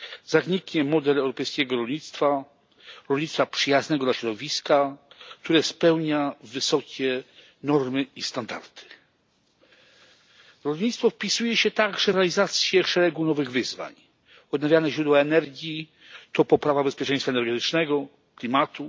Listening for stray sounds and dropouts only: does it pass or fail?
pass